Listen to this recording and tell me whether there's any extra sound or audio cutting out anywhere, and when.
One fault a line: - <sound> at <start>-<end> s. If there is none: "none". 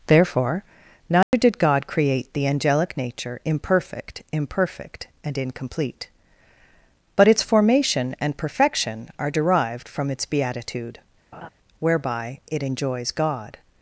- dropout at 1.2-1.3 s
- laugh at 11.3-11.5 s